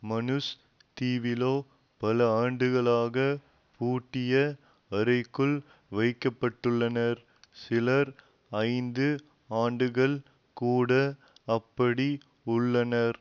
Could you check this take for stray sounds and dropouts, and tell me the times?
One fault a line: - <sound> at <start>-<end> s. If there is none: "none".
none